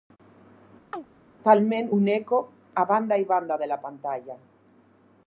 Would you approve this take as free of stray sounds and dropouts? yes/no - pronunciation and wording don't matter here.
no